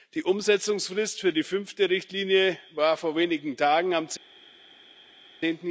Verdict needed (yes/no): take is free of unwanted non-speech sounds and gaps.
yes